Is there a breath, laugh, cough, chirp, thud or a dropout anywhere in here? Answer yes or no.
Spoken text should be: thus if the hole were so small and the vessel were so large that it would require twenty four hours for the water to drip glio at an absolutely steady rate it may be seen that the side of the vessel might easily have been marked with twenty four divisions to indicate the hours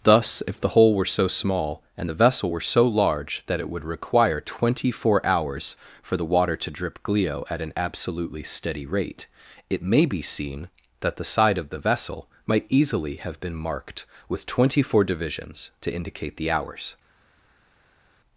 no